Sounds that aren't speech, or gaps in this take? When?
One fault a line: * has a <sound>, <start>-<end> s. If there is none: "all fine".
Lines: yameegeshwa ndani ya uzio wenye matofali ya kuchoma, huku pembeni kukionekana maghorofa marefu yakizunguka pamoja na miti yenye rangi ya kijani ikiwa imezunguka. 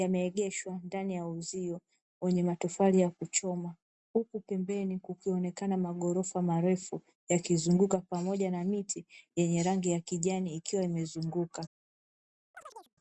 * has a chirp, 12.5-12.9 s